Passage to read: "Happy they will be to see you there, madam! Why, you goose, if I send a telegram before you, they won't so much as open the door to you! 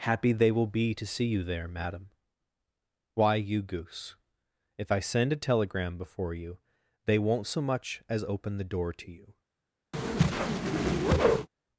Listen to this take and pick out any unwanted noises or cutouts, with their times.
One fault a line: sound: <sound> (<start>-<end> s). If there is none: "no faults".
sound: whoosh (9.9-11.5 s)